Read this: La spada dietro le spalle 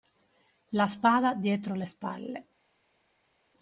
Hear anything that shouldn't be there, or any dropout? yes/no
no